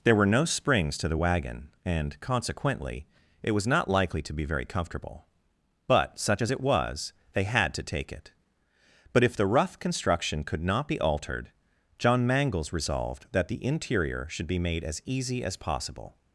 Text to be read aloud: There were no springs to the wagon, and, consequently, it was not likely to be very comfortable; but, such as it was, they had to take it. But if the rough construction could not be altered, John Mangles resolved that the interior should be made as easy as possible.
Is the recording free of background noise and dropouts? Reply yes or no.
yes